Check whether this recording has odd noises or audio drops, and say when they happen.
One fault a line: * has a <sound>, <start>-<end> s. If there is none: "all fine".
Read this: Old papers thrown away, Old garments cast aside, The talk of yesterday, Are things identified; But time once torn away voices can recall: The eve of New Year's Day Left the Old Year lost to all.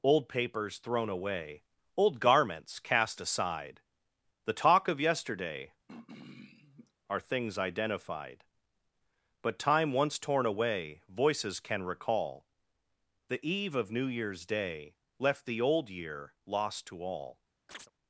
* has a throat clearing, 5.9-6.9 s
* has a chirp, 17.7-17.9 s